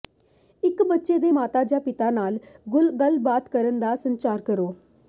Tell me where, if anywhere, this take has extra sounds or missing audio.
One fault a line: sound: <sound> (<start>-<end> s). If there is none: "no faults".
no faults